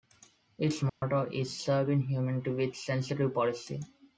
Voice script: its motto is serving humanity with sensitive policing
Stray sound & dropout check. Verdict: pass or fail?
fail